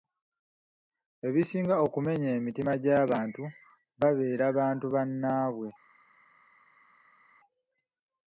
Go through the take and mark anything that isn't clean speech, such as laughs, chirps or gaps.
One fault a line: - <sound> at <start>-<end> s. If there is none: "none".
none